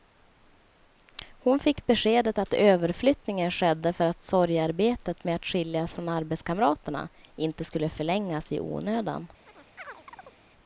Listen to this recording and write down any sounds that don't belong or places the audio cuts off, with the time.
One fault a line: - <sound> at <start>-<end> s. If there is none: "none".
- chirp at 9.5-10.4 s